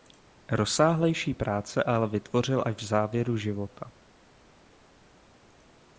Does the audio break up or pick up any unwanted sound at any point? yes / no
no